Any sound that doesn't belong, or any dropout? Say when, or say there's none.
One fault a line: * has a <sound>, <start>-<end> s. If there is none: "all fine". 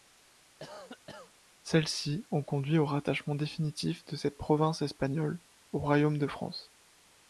* has a cough, 0.6-1.3 s